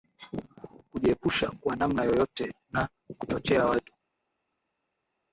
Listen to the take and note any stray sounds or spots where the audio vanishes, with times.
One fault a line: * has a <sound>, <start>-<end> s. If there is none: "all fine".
all fine